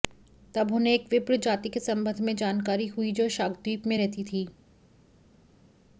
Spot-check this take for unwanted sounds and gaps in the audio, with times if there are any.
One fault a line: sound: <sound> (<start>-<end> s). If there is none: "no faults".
no faults